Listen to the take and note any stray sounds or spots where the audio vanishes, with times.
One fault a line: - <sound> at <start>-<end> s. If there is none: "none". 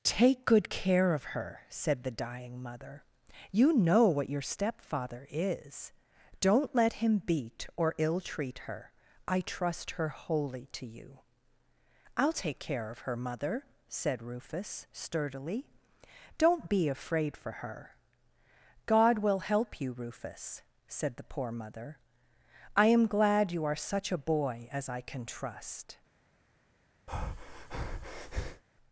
- breath at 27.1-28.6 s